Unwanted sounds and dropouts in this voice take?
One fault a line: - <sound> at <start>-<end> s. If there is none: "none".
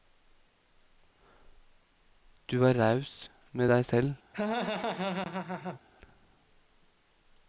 - laugh at 4.3-5.8 s